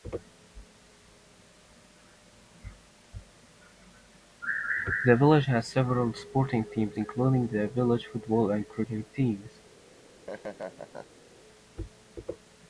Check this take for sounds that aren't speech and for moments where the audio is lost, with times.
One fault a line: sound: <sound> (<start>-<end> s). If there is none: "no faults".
sound: laugh (9.9-11.2 s)